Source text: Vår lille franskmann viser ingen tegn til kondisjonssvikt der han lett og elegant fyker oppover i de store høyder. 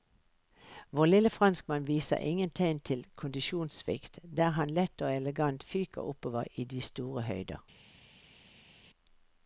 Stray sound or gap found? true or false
false